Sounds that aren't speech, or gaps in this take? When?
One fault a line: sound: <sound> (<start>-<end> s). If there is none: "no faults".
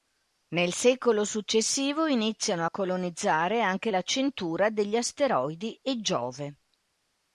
no faults